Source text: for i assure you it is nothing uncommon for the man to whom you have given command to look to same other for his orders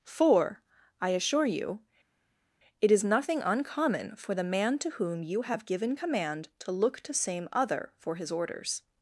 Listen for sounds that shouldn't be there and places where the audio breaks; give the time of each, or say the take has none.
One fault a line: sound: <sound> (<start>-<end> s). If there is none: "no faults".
no faults